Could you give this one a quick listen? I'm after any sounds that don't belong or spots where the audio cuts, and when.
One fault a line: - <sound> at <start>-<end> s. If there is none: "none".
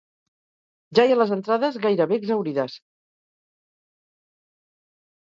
none